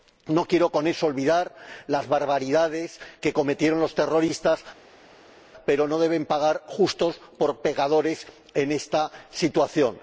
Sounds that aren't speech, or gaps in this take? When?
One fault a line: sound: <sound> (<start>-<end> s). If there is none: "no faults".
no faults